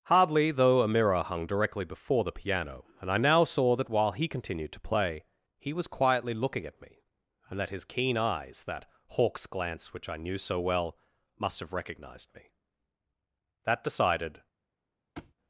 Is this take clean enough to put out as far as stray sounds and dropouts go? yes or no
no